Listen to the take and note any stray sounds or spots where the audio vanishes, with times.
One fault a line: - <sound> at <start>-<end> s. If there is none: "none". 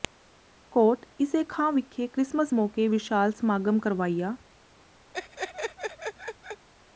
- laugh at 5.1-6.7 s